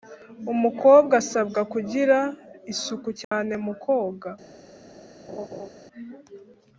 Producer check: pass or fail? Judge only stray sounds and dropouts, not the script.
fail